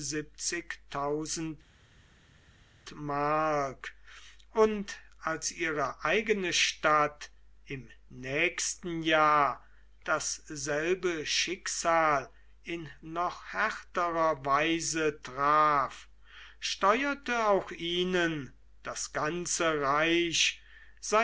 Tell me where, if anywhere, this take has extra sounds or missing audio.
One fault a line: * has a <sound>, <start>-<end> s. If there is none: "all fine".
all fine